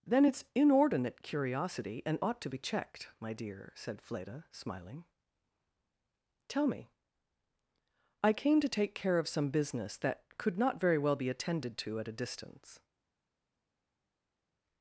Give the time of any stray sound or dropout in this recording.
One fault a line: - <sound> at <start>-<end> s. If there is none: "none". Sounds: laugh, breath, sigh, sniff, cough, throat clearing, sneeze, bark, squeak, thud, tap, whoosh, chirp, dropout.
none